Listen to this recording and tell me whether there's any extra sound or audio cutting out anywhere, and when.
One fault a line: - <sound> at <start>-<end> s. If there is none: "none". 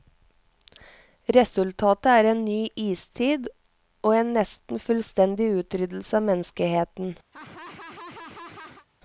- laugh at 7.3-8.9 s